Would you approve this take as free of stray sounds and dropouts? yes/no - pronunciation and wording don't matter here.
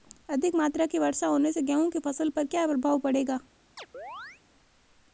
no